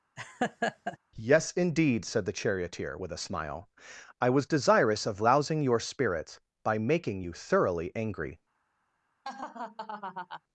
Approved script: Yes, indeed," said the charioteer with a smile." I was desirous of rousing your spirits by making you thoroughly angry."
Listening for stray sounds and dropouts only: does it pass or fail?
fail